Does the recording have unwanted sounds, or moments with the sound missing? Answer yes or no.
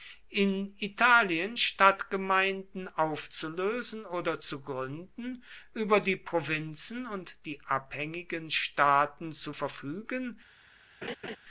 yes